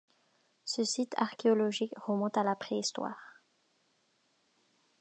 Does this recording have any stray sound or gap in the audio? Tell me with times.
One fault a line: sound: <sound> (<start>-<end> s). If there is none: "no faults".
no faults